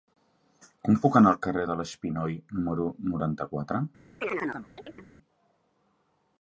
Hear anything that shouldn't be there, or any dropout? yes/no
yes